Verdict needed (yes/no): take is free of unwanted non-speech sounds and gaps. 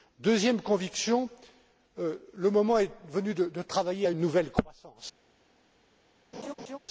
no